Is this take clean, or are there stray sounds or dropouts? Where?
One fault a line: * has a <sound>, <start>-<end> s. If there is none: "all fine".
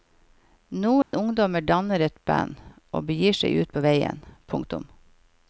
* has a dropout, 1.0-1.1 s